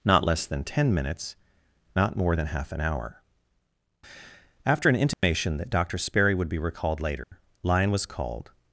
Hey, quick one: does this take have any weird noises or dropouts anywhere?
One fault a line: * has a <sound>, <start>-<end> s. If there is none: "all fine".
* has a dropout, 5.1-5.2 s
* has a dropout, 7.2-7.3 s